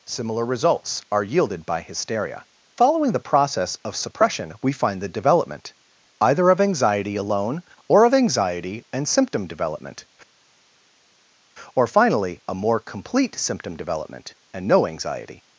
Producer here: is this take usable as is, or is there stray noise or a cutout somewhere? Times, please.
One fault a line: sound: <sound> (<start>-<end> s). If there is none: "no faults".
no faults